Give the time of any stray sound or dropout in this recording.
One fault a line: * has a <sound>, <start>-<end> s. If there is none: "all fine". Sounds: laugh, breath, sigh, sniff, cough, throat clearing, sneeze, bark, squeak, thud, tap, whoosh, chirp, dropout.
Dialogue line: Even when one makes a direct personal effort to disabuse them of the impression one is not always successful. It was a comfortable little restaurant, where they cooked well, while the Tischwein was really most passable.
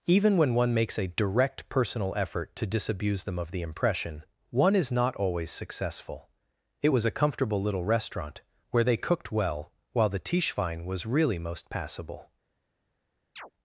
* has a chirp, 13.4-13.5 s